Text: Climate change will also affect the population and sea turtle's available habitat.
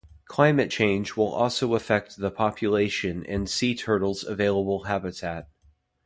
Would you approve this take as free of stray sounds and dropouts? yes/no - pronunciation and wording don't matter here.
yes